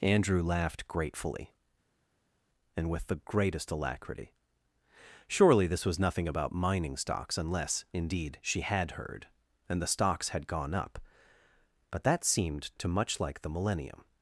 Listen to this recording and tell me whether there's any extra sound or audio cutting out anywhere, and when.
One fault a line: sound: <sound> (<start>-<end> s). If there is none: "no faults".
no faults